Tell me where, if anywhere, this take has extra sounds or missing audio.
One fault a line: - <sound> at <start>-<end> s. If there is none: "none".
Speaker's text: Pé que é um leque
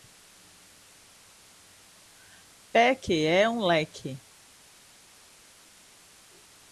none